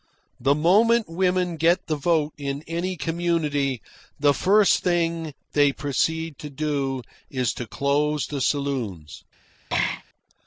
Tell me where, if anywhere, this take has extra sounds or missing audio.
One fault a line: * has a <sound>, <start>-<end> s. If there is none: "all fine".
* has a throat clearing, 9.7-10.0 s